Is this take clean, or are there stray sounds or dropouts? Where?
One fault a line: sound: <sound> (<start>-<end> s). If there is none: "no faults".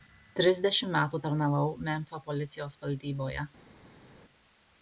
no faults